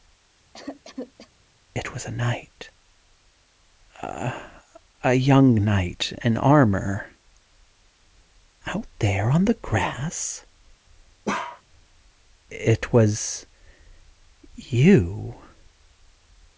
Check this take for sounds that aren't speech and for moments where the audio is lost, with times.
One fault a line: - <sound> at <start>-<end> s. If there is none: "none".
- cough at 0.5-1.3 s
- bark at 11.3-11.6 s